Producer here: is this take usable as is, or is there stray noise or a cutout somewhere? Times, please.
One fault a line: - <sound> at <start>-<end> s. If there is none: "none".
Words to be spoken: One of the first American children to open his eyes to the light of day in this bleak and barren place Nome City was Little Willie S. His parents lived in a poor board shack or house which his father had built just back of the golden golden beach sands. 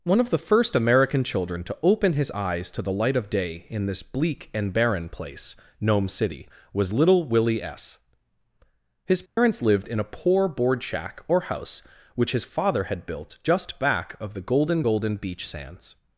- dropout at 9.3-9.4 s